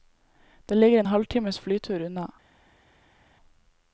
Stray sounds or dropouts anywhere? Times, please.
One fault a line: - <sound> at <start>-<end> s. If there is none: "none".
none